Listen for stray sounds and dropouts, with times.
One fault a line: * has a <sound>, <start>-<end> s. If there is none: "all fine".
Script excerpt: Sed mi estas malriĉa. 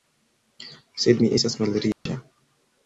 * has a dropout, 1.9-2.1 s